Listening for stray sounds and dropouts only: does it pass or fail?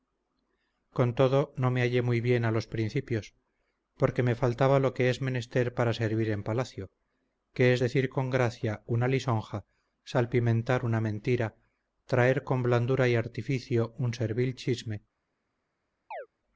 fail